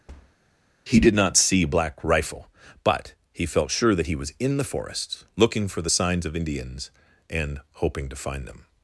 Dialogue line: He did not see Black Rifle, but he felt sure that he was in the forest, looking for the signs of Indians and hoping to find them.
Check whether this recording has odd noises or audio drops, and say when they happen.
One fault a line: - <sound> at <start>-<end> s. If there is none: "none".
- thud at 0.1-0.4 s